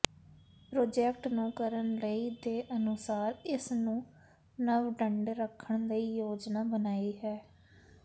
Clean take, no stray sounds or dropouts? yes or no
yes